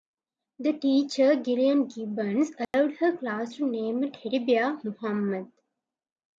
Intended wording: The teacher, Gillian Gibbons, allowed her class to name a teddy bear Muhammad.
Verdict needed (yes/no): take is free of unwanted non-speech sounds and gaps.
no